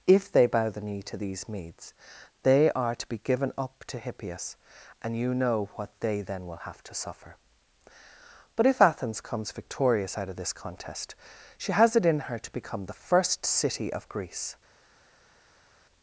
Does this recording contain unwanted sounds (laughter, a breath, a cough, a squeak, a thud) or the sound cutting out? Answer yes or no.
no